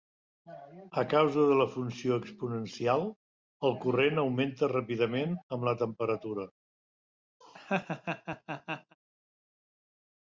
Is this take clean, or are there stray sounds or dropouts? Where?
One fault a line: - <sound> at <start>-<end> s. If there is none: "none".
- laugh at 7.4-9.0 s